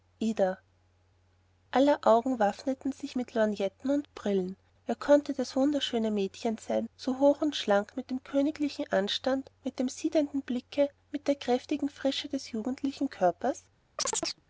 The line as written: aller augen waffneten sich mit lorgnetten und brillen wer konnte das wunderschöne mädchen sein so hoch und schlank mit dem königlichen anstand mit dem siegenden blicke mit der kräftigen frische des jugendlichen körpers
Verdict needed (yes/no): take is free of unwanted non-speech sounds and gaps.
no